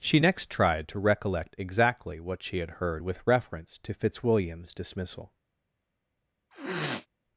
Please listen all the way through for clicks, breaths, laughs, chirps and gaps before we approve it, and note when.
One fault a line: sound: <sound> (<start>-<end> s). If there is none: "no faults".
sound: sniff (6.5-7.1 s)